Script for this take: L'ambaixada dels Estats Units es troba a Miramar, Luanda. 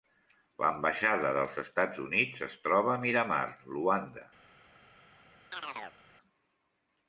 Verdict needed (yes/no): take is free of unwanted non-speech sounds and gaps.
no